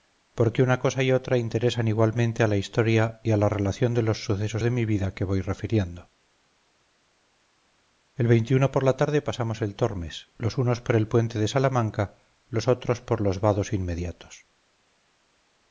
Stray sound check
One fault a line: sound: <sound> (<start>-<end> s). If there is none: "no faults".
no faults